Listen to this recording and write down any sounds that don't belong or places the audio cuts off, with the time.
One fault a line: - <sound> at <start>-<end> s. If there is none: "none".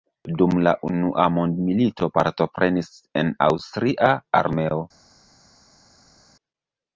none